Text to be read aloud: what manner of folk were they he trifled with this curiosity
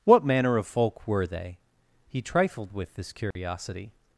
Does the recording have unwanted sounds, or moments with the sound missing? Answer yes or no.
yes